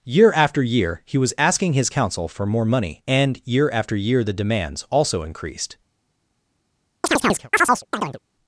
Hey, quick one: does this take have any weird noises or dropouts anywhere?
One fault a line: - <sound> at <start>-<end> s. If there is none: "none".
- chirp at 7.0-8.2 s